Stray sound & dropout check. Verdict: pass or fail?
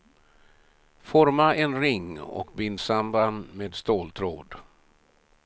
pass